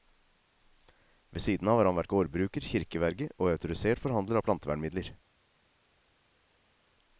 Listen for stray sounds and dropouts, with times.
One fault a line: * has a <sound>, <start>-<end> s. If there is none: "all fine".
all fine